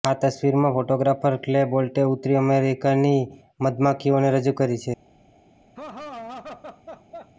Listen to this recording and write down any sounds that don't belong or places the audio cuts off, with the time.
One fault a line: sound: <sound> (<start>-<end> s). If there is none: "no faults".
sound: laugh (5.8-7.3 s)